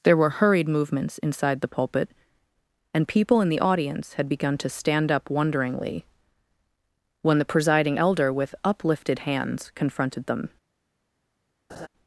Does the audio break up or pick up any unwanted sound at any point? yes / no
yes